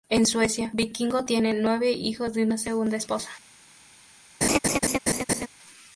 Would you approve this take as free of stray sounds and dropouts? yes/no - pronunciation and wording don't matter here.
no